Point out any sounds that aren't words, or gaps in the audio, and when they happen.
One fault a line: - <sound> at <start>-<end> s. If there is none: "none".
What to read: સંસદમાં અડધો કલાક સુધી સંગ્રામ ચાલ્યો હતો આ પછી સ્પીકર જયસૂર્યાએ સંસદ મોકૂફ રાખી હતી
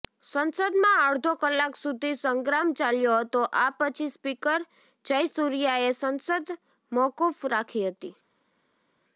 none